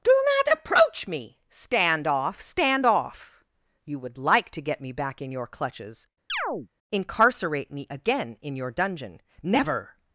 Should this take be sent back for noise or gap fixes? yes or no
yes